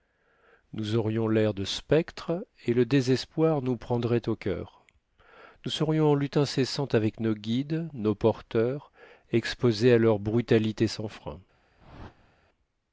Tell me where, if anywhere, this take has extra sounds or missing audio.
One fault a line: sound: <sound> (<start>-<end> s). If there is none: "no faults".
sound: whoosh (11.8-12.4 s)